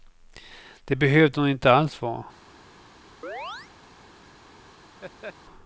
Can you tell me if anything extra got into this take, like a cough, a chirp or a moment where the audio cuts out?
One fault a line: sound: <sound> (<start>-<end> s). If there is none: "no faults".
sound: chirp (3.2-3.7 s)
sound: laugh (5.0-5.3 s)